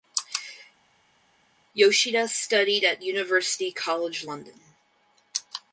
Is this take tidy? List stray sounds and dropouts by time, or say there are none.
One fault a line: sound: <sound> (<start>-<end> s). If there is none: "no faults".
no faults